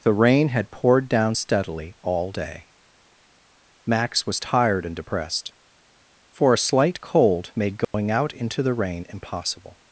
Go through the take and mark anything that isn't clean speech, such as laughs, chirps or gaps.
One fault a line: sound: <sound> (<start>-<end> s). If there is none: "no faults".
sound: dropout (7.8-7.9 s)